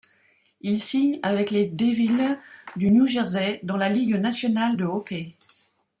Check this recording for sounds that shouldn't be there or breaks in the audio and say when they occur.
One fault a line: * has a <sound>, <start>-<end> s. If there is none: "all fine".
all fine